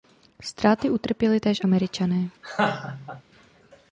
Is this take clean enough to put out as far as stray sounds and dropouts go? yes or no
no